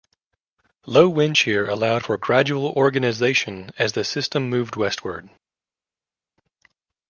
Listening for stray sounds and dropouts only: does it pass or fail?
pass